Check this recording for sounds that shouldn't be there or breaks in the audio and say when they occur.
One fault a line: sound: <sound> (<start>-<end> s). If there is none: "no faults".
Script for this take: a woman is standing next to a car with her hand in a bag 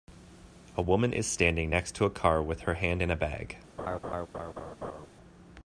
sound: laugh (3.8-5.1 s)